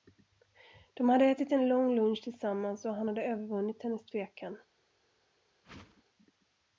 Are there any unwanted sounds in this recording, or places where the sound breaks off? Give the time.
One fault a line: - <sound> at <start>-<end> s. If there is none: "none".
- whoosh at 5.6-6.0 s